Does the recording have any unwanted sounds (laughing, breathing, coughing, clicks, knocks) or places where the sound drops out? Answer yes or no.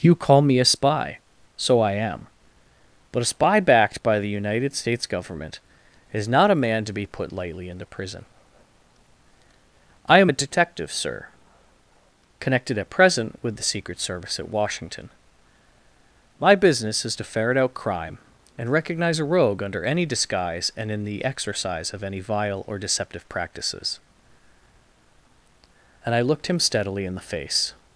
no